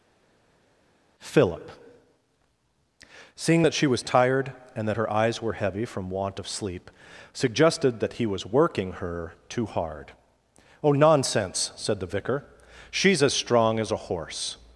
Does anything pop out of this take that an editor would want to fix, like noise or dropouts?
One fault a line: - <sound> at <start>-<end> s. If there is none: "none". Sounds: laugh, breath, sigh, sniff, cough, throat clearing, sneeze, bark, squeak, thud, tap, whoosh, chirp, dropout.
none